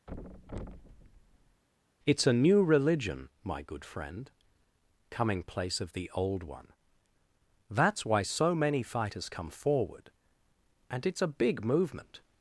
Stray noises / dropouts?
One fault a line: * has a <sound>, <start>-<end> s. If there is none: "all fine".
* has a thud, 0.1-1.6 s